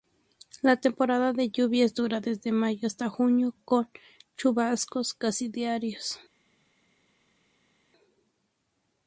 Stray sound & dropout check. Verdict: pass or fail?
pass